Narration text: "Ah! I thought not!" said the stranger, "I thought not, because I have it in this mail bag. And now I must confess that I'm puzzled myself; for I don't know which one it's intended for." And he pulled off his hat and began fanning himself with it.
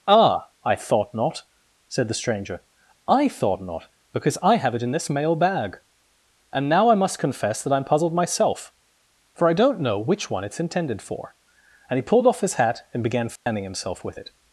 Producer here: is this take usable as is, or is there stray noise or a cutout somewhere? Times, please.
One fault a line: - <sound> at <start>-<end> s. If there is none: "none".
- dropout at 13.4-13.5 s